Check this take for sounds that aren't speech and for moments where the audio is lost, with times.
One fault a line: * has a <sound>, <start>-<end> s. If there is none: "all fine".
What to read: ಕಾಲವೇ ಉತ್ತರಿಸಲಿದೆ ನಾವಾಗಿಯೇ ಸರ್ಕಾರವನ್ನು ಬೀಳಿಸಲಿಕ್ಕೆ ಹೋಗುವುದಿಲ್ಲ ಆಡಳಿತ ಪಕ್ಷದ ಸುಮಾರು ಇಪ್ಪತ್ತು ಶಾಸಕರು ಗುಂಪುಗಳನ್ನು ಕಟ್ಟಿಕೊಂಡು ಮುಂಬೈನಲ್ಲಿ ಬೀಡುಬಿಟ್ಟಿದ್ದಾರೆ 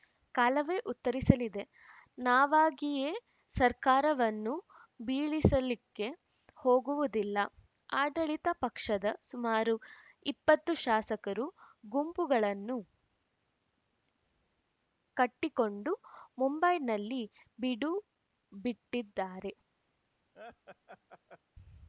* has a laugh, 20.3-21.4 s